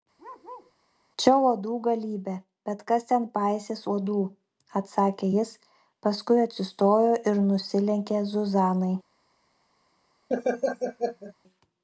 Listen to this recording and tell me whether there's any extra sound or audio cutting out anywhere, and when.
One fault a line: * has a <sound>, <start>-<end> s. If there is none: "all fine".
* has a bark, 0.2-0.7 s
* has a laugh, 10.3-11.3 s